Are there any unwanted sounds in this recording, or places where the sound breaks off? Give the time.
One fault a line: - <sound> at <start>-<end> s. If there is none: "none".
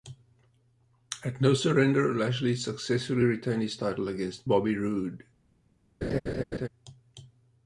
- laugh at 6.0-6.7 s